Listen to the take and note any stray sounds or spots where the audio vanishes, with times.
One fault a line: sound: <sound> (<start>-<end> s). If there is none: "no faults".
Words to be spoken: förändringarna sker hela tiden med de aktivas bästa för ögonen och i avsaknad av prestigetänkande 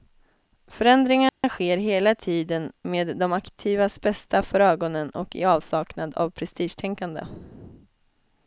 sound: dropout (1.3-1.4 s)